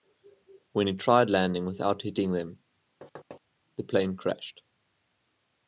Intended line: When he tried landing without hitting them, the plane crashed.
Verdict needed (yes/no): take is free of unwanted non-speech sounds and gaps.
no